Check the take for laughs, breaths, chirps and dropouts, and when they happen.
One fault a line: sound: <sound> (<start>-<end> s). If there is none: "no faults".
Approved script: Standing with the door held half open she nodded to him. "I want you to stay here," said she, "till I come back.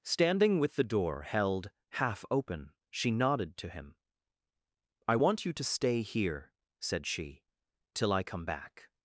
no faults